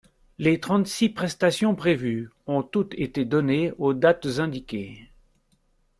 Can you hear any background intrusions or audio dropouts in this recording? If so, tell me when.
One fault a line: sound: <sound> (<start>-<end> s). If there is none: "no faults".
no faults